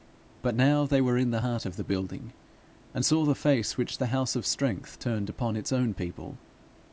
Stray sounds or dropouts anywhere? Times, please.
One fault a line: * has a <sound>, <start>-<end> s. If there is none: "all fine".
all fine